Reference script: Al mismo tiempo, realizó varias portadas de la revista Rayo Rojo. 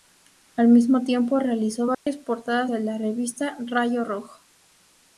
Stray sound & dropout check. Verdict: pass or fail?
fail